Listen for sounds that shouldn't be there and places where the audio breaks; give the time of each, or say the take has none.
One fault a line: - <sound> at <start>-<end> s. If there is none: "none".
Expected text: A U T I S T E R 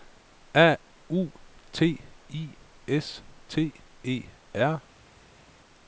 none